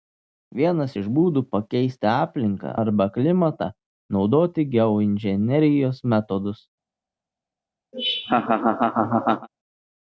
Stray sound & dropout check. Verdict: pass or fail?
fail